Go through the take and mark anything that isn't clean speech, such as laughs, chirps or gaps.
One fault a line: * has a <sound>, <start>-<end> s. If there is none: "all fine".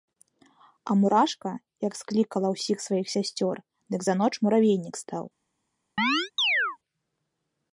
* has a chirp, 6.0-6.8 s